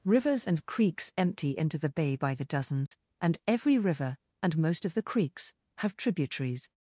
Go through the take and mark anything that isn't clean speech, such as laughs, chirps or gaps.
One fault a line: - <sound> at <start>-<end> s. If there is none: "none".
- dropout at 2.9-2.9 s